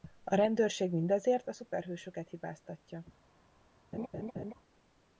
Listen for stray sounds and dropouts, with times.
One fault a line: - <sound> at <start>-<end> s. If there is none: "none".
- laugh at 3.9-4.5 s